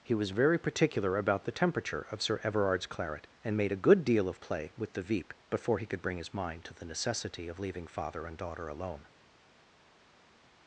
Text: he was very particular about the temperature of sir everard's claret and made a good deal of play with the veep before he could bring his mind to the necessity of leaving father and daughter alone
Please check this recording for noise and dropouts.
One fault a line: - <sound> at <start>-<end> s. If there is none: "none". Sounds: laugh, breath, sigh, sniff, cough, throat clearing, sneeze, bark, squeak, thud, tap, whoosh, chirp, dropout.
none